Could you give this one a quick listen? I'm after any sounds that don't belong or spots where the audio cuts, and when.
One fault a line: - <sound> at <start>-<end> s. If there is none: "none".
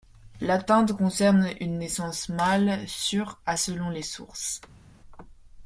none